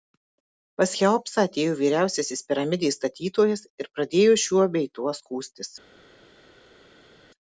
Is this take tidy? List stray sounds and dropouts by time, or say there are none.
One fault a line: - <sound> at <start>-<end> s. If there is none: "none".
none